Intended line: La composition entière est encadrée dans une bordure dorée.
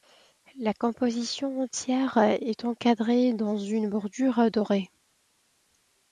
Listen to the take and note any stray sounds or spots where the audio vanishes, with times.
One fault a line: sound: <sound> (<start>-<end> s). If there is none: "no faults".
no faults